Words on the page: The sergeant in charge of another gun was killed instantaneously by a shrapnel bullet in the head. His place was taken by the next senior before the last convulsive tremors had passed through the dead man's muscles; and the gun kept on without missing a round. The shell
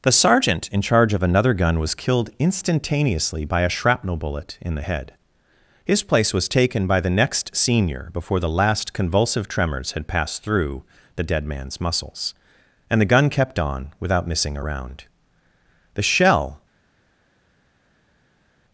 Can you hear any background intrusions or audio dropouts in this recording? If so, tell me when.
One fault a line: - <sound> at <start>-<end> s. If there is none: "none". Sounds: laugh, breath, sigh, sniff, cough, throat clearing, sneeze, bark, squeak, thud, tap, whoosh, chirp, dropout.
none